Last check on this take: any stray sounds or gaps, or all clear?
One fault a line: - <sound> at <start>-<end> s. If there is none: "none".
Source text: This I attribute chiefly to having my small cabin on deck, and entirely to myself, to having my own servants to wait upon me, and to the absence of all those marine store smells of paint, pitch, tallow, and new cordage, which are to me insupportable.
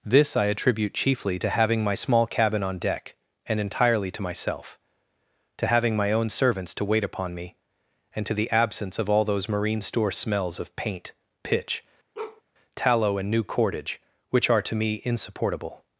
- bark at 12.1-12.4 s